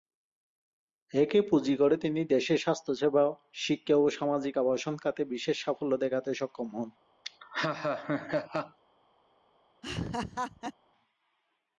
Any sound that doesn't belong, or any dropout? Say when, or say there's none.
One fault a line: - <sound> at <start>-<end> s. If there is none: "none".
- laugh at 7.2-8.8 s
- laugh at 9.8-10.7 s